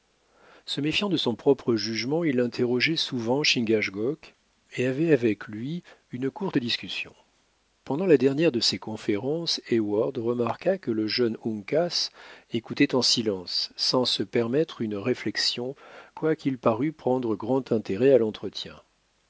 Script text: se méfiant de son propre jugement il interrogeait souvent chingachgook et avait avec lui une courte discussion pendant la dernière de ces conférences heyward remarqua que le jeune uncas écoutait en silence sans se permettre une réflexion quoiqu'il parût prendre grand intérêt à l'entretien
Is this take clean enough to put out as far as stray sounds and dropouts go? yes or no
yes